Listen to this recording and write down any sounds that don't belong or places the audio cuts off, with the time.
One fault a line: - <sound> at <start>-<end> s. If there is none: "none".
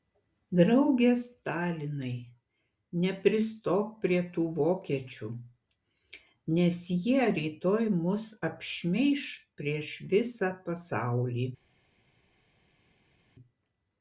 none